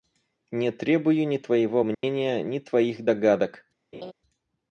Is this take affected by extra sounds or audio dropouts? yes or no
yes